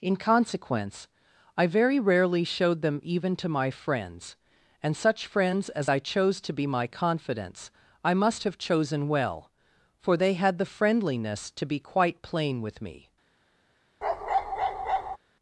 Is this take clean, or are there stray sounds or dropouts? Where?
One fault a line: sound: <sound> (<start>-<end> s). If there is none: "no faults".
sound: bark (14.0-15.2 s)